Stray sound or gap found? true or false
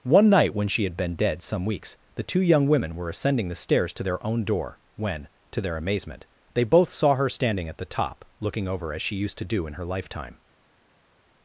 false